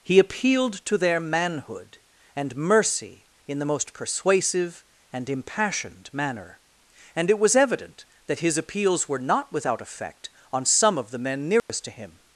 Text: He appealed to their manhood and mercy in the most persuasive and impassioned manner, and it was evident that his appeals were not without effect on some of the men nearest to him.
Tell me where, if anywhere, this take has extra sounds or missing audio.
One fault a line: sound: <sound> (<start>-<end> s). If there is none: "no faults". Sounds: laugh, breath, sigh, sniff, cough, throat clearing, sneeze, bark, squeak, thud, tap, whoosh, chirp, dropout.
sound: dropout (11.6-11.7 s)